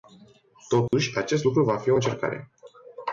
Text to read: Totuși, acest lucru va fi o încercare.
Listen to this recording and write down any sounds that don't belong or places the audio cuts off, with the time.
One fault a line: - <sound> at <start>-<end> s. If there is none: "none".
- dropout at 0.9-0.9 s